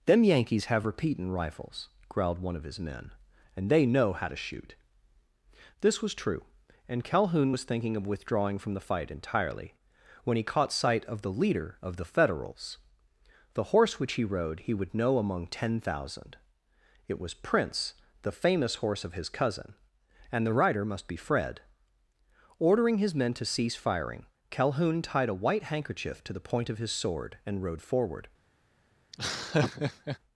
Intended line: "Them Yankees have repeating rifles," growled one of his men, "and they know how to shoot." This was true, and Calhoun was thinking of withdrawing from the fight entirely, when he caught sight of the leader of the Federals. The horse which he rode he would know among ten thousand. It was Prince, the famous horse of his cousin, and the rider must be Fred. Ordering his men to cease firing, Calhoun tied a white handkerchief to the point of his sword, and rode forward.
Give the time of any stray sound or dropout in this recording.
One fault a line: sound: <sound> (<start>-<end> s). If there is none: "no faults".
sound: laugh (29.1-30.2 s)